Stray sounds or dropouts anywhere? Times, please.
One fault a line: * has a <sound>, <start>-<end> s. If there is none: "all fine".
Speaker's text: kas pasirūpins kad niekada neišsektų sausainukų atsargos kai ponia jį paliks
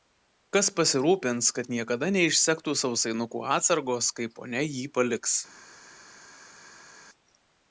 all fine